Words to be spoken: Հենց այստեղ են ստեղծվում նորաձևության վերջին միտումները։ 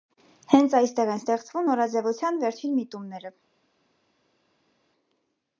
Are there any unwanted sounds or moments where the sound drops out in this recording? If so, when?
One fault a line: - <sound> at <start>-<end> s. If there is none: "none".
none